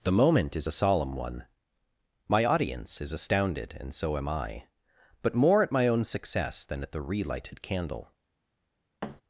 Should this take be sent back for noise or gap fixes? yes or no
yes